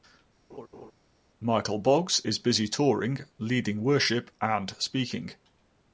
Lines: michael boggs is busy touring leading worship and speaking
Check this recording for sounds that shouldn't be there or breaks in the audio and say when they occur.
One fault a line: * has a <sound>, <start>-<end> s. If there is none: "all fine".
* has a laugh, 0.5-0.9 s